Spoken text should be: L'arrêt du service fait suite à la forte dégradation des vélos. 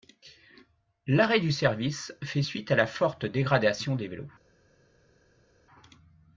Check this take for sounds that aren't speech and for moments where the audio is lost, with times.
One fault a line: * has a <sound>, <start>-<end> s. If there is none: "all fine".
all fine